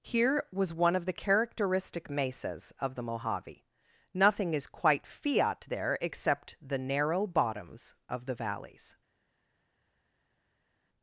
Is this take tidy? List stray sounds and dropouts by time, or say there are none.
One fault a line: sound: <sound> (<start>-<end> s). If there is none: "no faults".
no faults